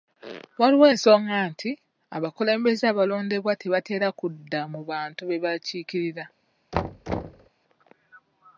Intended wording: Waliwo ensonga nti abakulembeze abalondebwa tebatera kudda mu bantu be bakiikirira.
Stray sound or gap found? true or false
true